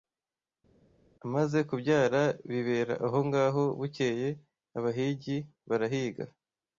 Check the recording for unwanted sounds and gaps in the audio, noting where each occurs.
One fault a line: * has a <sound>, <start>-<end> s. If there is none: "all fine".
all fine